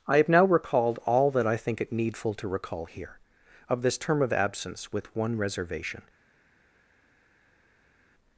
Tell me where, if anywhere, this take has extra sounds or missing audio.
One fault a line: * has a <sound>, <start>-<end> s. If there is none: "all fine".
all fine